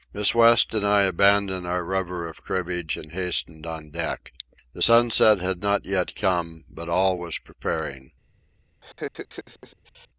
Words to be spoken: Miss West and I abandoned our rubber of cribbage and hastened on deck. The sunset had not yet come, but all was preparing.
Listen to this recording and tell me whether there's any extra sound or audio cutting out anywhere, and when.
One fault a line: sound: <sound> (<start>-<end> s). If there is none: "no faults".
sound: laugh (8.8-10.1 s)